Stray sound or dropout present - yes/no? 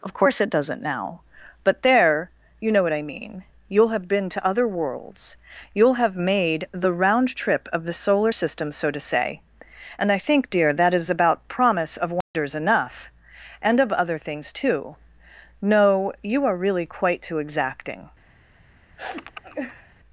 yes